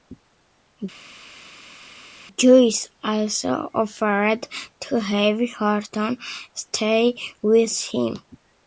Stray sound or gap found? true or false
false